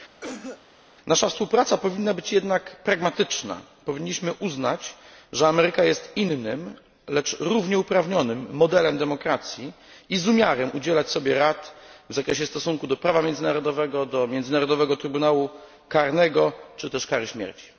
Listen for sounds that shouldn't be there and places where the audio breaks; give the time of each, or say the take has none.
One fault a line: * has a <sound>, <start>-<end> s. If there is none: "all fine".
* has a cough, 0.2-0.6 s